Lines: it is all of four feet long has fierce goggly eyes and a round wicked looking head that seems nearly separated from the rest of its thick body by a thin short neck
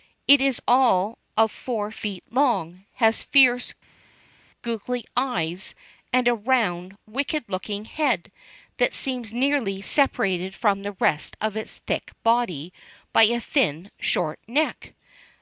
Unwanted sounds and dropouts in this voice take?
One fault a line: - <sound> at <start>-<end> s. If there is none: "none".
none